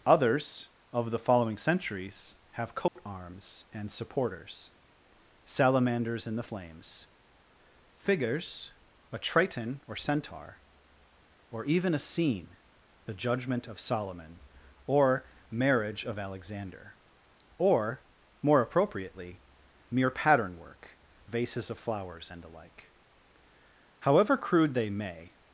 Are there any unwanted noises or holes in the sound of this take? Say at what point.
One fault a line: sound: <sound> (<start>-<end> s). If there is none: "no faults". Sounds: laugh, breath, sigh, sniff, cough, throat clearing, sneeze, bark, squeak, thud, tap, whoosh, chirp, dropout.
sound: dropout (2.9-3.0 s)